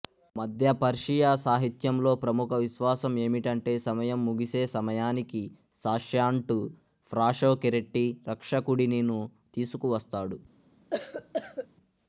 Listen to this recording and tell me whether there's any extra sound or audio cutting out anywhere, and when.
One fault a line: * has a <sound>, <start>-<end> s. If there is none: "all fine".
* has a cough, 10.9-11.7 s